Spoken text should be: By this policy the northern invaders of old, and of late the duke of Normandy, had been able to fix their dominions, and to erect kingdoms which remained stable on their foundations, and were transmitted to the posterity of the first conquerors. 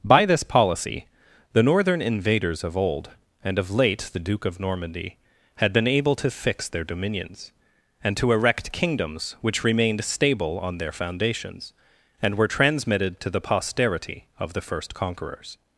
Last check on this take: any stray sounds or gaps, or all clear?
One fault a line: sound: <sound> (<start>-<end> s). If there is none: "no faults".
no faults